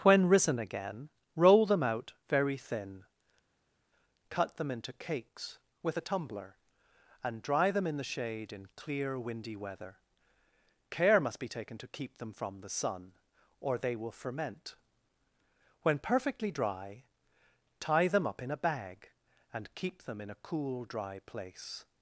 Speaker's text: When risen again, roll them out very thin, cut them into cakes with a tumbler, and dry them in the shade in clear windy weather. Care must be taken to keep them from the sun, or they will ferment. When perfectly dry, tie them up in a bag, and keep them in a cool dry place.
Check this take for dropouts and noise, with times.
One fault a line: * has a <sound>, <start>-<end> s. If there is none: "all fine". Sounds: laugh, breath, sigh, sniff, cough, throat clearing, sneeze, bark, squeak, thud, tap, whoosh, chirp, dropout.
all fine